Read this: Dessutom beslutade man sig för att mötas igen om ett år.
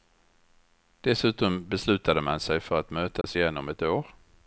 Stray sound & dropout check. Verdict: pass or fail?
fail